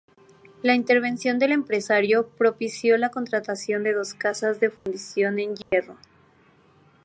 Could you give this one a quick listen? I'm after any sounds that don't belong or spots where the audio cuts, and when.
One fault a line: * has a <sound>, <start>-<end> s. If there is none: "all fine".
* has a dropout, 4.8-4.9 s
* has a dropout, 5.6-5.7 s